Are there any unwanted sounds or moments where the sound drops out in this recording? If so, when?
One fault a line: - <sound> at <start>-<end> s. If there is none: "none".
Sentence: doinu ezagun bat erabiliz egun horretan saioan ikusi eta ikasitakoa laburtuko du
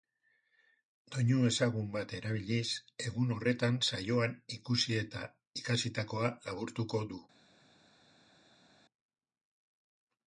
none